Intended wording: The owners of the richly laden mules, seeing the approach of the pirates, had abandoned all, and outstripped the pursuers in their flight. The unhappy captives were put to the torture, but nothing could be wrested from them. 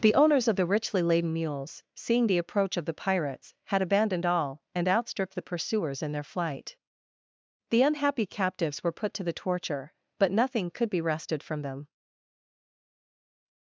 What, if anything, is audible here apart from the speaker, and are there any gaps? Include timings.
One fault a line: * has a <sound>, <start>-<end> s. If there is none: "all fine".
all fine